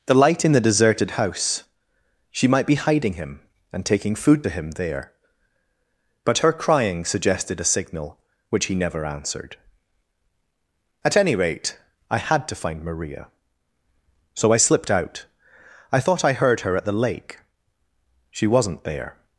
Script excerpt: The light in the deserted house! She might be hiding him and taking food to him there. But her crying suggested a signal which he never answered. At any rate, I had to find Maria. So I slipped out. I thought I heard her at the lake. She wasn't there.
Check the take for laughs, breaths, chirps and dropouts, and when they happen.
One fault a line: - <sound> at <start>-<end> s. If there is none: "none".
none